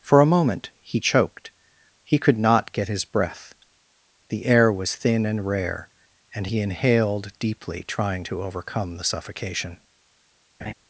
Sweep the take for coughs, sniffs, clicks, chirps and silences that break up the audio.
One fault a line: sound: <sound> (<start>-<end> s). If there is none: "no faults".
sound: laugh (10.6-10.7 s)